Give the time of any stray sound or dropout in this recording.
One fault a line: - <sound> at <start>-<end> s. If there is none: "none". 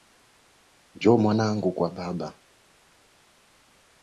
none